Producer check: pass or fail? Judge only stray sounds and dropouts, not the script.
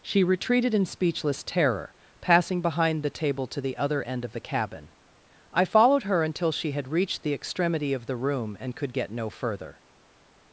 pass